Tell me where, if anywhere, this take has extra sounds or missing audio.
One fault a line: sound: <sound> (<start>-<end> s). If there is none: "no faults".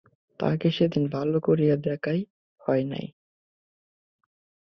no faults